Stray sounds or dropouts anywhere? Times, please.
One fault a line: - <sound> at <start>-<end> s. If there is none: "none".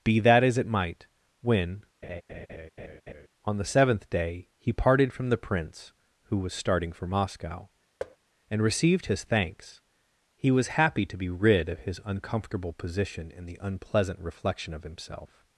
- laugh at 2.0-3.3 s
- thud at 8.0-8.2 s